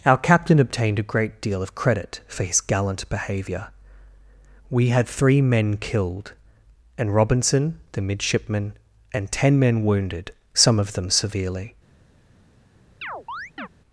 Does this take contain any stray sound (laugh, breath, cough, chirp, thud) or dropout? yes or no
yes